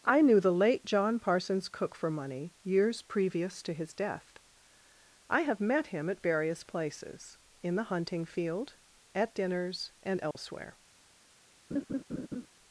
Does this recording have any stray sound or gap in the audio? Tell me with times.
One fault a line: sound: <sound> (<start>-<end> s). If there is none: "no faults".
sound: dropout (10.3-10.4 s)
sound: laugh (11.7-12.5 s)